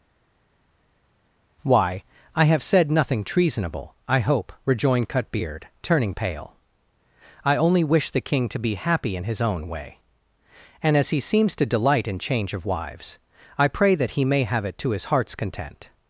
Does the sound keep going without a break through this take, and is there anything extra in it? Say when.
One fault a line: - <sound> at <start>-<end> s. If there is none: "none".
none